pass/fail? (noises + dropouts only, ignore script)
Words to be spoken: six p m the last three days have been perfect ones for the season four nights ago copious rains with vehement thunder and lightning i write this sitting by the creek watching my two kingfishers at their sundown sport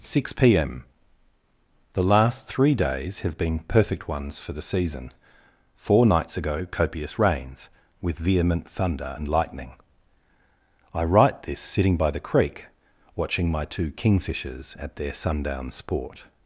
pass